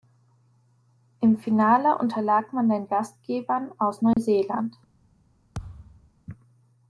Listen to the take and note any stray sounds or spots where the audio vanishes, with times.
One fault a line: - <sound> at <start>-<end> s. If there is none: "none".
- dropout at 4.1-4.2 s
- thud at 5.5-6.1 s